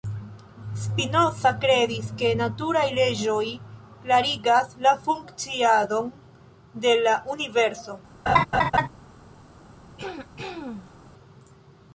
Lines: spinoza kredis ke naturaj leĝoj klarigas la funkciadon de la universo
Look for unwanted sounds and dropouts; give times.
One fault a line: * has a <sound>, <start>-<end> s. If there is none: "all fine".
* has a laugh, 8.3-8.9 s
* has a throat clearing, 10.0-10.9 s